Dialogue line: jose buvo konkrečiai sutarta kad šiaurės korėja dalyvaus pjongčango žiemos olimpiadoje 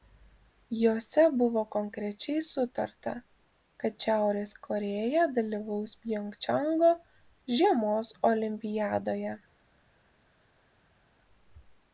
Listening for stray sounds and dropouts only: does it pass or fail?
pass